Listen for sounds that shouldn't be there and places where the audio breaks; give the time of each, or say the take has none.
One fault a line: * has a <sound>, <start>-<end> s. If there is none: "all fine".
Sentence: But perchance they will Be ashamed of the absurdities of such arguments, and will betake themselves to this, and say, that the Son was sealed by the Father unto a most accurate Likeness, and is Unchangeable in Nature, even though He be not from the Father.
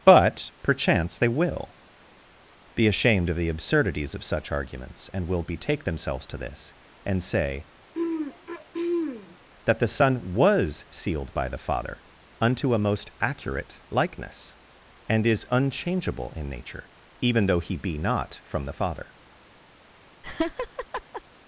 * has a throat clearing, 7.9-9.4 s
* has a laugh, 20.2-21.2 s